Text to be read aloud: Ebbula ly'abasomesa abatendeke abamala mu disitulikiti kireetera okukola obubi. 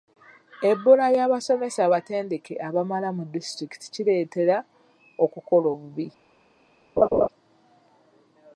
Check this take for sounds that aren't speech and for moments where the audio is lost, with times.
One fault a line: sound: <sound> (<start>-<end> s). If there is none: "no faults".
sound: laugh (7.0-7.3 s)